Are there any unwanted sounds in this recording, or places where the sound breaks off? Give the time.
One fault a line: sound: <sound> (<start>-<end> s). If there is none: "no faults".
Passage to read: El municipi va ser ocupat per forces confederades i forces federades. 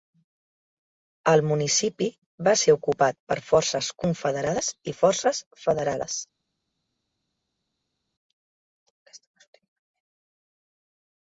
no faults